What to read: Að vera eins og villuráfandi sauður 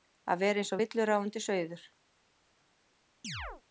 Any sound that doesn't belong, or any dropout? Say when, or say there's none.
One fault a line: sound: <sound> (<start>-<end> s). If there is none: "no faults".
sound: chirp (3.2-3.6 s)